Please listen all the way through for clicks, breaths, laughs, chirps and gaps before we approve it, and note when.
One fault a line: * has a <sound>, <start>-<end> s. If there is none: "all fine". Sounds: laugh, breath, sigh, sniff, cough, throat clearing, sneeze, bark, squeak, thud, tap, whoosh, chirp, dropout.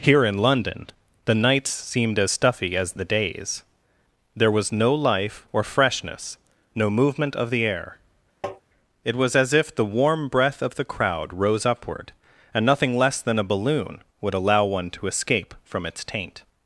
* has a tap, 8.4-8.6 s